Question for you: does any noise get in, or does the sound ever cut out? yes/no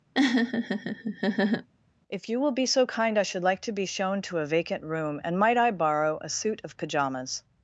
yes